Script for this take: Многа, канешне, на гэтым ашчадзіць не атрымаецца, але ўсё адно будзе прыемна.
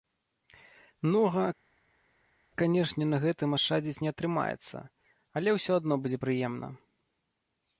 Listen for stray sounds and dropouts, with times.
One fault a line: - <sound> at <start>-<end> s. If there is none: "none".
none